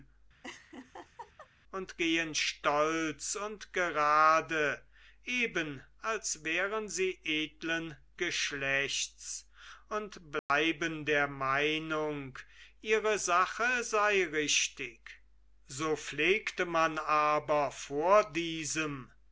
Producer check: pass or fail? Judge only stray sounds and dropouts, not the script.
fail